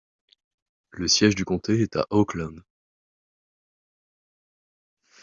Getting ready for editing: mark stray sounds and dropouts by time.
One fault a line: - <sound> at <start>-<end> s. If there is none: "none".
none